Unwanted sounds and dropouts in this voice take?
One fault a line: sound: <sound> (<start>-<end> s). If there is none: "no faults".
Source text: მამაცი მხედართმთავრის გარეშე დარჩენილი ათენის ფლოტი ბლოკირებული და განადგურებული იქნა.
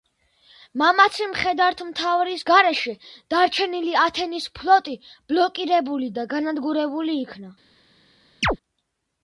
sound: chirp (8.4-8.6 s)